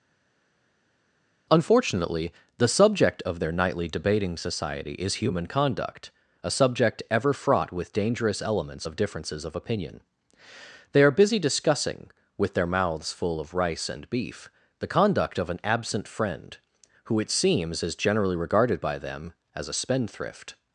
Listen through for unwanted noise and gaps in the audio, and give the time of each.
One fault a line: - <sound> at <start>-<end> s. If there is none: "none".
none